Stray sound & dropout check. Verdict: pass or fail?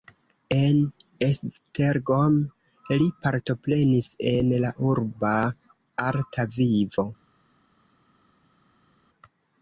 pass